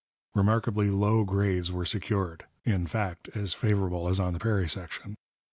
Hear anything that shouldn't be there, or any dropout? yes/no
no